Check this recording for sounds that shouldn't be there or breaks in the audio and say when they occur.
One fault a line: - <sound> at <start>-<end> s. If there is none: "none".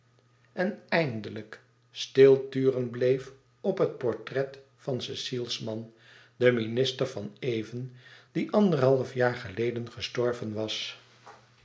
none